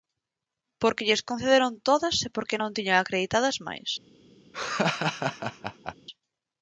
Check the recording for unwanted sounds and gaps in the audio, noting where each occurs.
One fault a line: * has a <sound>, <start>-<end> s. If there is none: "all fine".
* has a laugh, 4.5-5.9 s